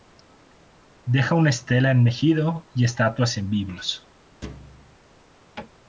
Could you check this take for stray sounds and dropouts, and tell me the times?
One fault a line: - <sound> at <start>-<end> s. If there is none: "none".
- thud at 4.4-5.0 s